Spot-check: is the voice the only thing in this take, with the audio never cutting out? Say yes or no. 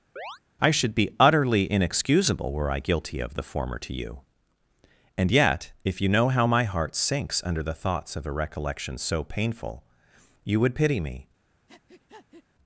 no